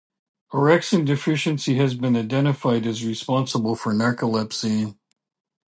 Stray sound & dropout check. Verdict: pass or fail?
pass